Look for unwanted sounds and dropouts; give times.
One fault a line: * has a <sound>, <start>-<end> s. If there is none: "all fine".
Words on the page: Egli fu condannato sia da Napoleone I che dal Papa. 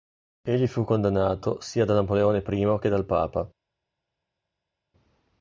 all fine